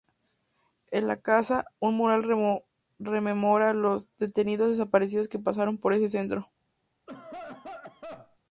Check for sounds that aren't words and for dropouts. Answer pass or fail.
fail